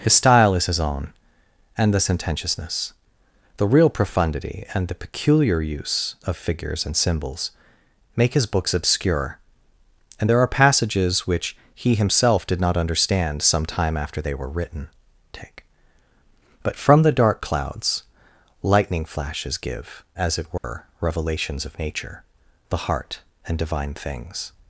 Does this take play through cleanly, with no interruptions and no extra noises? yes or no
no